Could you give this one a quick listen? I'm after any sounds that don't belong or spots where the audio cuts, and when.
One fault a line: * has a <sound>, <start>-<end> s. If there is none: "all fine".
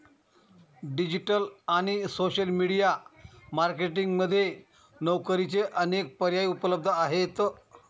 all fine